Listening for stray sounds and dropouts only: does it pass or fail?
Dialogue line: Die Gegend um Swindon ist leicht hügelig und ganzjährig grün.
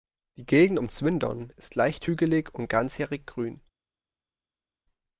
pass